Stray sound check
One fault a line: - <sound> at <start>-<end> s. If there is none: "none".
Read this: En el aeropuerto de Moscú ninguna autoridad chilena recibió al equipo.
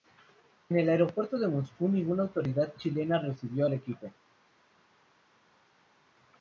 none